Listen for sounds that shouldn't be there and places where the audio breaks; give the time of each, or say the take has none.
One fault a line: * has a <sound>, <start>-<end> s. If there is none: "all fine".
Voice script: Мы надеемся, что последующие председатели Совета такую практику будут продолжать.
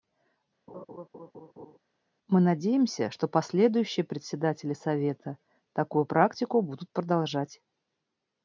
* has a laugh, 0.7-1.8 s